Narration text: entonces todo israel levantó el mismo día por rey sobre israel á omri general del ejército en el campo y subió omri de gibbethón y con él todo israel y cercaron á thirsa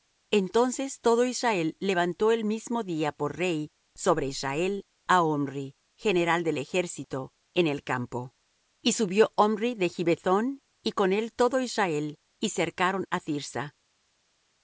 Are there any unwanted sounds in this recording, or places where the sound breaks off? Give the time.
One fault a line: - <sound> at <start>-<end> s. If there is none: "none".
none